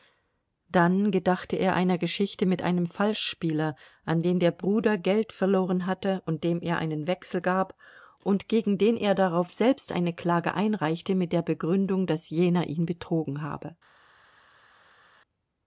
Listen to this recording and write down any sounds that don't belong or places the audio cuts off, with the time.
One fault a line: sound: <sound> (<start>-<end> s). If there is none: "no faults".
no faults